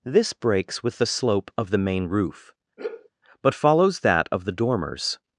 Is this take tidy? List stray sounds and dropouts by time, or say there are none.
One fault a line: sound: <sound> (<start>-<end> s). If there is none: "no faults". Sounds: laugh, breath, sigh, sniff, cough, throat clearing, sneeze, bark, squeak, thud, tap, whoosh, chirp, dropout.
sound: sigh (2.8-3.1 s)